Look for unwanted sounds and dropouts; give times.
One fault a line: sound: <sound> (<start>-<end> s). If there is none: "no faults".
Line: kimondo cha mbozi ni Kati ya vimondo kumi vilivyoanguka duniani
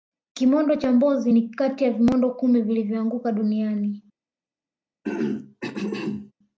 sound: throat clearing (5.0-6.3 s)